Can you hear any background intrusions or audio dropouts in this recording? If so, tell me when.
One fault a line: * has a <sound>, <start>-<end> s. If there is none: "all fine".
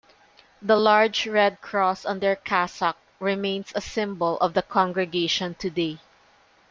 all fine